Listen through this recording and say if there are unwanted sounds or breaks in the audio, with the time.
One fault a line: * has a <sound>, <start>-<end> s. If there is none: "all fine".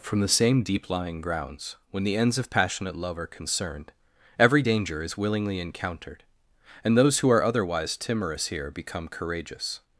all fine